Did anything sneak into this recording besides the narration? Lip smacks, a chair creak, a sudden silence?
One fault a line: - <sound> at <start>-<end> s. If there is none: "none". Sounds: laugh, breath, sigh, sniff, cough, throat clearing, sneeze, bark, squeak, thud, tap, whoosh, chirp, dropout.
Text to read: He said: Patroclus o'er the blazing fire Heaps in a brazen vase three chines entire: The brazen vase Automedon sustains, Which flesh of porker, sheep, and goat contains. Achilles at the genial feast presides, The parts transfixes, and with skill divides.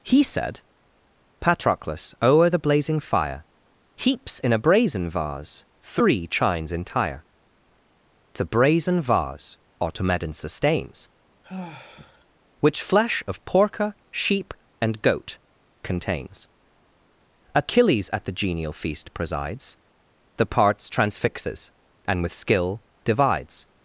- sigh at 11.4-12.3 s